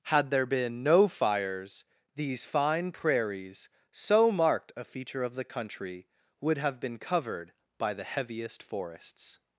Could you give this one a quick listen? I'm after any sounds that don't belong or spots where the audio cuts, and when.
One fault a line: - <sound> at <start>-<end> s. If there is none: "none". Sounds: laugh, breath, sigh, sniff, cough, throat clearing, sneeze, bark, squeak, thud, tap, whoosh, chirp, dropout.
none